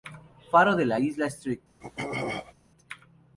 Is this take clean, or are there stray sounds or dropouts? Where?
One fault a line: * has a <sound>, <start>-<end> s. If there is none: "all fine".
* has a throat clearing, 1.8-2.5 s